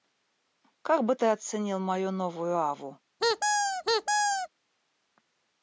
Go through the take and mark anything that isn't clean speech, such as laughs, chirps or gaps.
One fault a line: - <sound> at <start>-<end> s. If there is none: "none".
- squeak at 3.2-4.5 s